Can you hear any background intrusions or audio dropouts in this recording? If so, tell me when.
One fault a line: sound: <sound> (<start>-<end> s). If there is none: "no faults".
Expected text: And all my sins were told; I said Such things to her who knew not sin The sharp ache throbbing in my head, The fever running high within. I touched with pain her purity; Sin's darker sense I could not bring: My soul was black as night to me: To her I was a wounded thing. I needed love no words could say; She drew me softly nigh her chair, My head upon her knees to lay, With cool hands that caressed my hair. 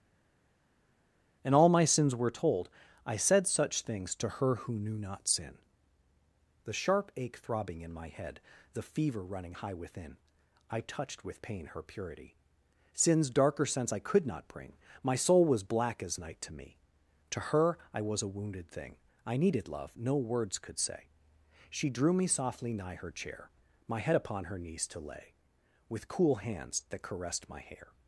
no faults